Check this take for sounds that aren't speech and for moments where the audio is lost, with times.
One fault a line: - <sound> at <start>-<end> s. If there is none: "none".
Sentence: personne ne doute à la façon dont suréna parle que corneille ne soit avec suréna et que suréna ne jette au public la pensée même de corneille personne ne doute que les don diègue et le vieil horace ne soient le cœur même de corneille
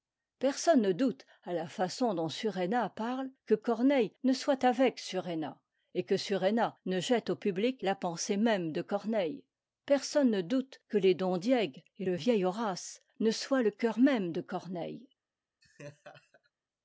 - laugh at 15.6-16.5 s